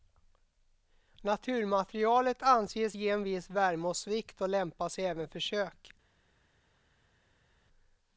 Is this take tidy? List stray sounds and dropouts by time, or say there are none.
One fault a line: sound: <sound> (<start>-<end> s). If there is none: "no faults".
no faults